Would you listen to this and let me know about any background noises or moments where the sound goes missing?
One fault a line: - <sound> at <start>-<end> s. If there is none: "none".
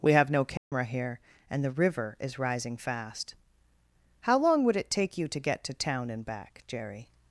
- dropout at 0.6-0.7 s